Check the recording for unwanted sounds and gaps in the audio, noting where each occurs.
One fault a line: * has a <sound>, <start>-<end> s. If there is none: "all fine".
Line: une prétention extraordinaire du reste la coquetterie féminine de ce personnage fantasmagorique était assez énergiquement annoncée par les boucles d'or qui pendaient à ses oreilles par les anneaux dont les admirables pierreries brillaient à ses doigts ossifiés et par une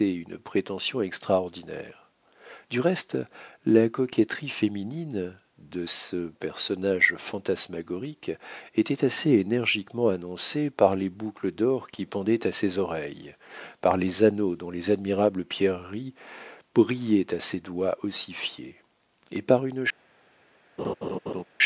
* has a laugh, 20.8-21.4 s